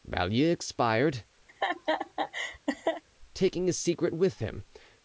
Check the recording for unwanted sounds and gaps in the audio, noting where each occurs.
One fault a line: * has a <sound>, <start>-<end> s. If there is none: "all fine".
* has a laugh, 1.5-3.0 s